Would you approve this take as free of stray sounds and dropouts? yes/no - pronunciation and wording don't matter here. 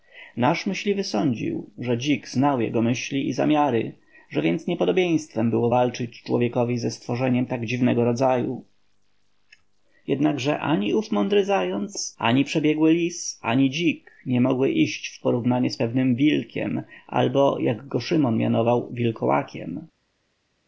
yes